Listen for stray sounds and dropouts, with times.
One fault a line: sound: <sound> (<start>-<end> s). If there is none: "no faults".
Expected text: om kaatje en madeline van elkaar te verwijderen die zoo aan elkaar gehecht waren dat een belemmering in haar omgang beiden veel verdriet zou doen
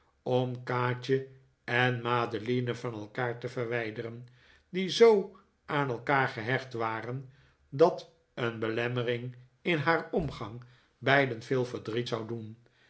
no faults